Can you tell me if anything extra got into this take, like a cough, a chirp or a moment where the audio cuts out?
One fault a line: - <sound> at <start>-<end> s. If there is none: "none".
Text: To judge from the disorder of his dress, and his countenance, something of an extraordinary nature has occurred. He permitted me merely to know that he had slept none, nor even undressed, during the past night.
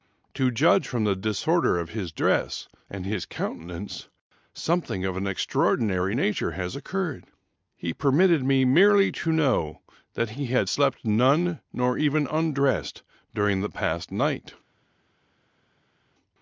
none